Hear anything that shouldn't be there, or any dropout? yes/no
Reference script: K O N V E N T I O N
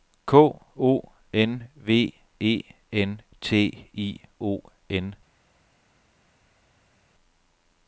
no